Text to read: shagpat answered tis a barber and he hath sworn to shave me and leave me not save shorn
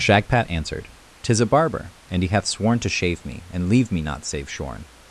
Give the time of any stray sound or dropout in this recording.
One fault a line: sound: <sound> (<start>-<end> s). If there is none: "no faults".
no faults